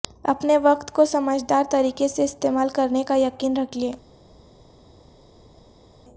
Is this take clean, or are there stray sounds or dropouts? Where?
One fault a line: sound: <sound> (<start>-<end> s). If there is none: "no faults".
no faults